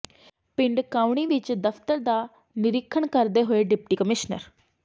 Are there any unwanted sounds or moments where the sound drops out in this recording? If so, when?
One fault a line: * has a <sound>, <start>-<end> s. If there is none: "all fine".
all fine